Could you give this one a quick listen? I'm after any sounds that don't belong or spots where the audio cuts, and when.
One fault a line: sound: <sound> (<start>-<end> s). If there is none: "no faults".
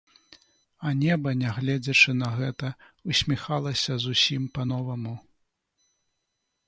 no faults